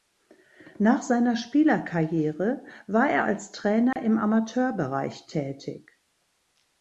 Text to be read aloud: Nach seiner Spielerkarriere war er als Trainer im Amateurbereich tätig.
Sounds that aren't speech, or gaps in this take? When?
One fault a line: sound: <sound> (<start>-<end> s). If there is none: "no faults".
sound: dropout (3.9-4.0 s)